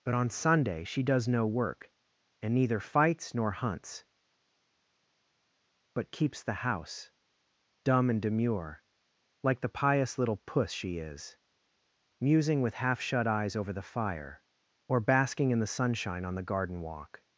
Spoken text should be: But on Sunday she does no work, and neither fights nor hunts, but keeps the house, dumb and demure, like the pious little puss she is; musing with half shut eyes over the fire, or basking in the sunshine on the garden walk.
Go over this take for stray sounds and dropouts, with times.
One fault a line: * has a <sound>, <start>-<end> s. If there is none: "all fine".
all fine